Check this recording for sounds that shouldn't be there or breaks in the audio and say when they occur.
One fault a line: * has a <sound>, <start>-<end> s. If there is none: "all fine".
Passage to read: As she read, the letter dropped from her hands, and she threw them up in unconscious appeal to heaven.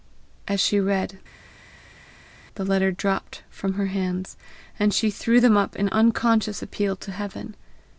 all fine